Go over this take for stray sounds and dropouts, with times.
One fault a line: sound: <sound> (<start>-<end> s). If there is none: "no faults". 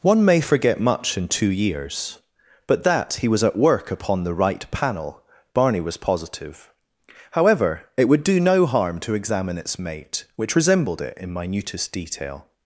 no faults